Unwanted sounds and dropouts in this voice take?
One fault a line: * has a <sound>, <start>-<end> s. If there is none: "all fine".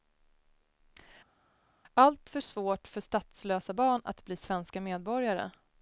all fine